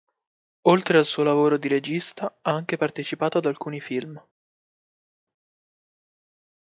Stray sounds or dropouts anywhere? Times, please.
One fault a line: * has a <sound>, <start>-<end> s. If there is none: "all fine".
all fine